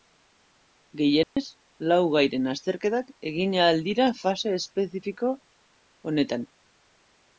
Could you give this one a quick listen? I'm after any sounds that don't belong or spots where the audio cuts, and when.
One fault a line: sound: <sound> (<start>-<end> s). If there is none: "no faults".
sound: dropout (1.2-1.4 s)